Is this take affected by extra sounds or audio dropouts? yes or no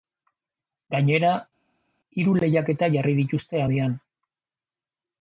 no